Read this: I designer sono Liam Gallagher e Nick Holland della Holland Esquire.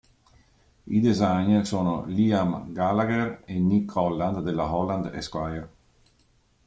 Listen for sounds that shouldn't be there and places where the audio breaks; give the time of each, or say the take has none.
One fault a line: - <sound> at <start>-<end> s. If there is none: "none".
none